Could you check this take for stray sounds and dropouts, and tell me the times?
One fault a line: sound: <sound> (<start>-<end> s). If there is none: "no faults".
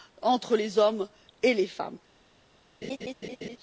sound: laugh (2.8-3.6 s)